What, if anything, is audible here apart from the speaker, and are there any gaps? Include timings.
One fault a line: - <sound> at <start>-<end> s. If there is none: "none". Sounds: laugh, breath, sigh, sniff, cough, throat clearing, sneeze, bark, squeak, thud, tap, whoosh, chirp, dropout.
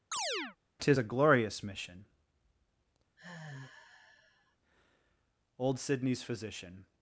- chirp at 0.1-0.6 s
- sigh at 3.2-4.6 s